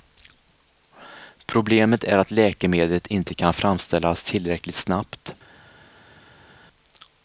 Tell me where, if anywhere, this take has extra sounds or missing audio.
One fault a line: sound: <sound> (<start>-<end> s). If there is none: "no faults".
no faults